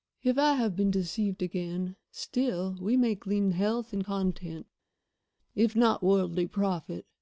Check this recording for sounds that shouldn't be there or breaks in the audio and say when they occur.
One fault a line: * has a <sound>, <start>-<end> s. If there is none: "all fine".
all fine